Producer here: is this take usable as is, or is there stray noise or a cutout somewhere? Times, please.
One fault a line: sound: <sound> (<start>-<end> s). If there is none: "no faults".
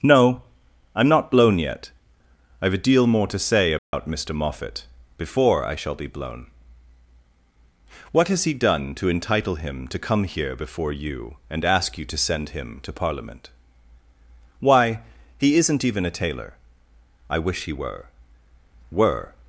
sound: dropout (3.8-3.9 s)